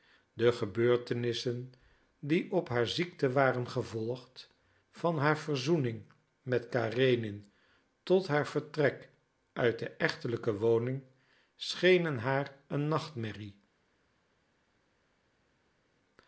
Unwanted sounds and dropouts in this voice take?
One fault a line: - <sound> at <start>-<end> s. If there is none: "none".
none